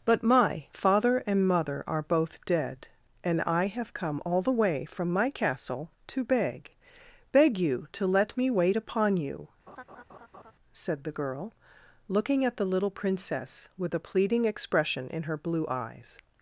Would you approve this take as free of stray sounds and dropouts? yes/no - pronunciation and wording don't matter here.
no